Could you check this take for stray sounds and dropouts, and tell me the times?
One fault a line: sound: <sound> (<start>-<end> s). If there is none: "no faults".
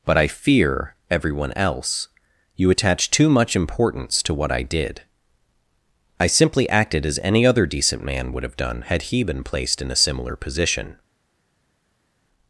no faults